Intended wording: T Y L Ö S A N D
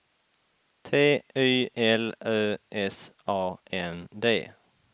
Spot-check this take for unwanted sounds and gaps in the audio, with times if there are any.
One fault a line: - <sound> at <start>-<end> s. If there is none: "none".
none